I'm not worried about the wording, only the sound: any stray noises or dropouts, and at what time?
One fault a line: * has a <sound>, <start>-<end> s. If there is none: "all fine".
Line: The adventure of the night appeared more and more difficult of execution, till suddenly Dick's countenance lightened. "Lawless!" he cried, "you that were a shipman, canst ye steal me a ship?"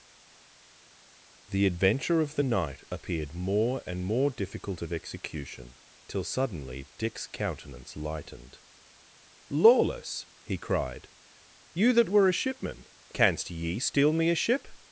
all fine